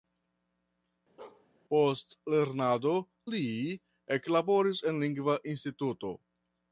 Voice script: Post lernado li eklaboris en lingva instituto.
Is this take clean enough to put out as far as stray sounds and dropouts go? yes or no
no